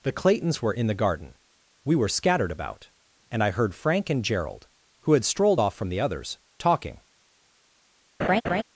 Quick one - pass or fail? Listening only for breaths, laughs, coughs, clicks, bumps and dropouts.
fail